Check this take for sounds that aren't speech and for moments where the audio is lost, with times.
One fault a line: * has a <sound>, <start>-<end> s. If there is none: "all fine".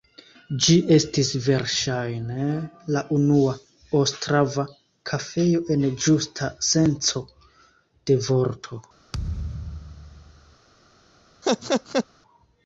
* has a thud, 9.1-10.6 s
* has a laugh, 11.4-12.1 s